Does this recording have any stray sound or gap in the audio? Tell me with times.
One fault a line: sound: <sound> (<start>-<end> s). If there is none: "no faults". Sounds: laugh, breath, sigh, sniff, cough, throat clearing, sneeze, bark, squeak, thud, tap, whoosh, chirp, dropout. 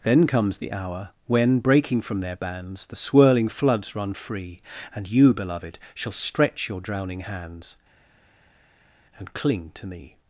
no faults